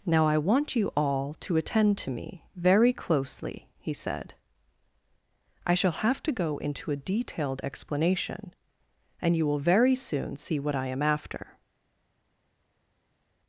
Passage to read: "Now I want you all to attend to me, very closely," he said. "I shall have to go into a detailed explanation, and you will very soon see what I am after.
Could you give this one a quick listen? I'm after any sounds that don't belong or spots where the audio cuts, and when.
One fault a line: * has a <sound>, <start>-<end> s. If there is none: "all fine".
all fine